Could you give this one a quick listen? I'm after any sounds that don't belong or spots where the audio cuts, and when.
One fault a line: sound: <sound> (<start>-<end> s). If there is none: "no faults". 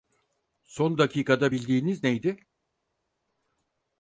no faults